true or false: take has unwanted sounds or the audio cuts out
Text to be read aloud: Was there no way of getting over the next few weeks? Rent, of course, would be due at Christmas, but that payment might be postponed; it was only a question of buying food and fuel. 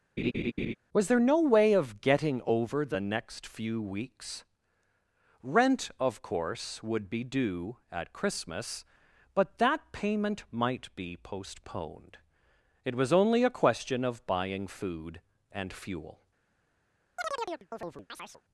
true